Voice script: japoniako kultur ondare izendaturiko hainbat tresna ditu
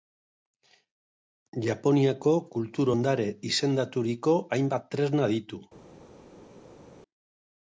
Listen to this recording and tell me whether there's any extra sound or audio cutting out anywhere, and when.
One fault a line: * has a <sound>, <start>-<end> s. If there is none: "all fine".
all fine